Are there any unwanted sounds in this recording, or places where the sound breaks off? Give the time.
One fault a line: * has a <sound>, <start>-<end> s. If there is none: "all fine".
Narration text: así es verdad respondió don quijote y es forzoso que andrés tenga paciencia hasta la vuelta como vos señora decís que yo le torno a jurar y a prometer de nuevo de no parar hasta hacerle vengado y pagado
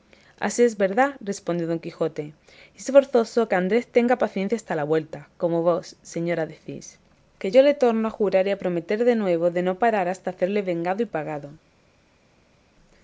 all fine